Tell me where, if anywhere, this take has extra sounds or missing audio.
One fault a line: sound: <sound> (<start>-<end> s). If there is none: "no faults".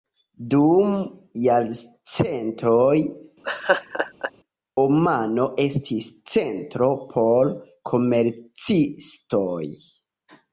sound: laugh (3.4-4.3 s)